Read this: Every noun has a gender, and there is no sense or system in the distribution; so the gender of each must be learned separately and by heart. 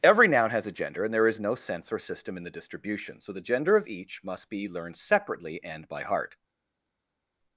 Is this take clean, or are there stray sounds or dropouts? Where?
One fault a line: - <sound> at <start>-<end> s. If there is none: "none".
none